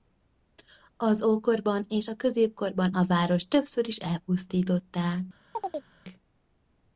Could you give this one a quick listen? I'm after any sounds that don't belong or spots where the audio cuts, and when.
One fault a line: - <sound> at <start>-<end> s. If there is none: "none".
- chirp at 5.5-5.9 s